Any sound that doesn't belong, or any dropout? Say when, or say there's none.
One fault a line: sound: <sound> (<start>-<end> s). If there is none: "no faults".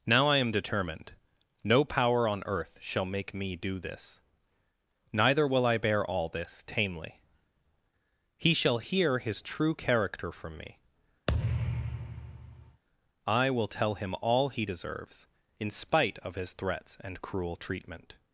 sound: thud (11.3-12.8 s)